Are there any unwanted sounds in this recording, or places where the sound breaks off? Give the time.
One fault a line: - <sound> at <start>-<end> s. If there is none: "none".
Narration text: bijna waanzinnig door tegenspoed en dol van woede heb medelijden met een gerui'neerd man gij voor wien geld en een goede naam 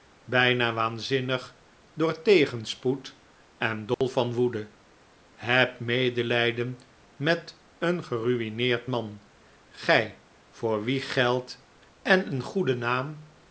- dropout at 3.9-4.0 s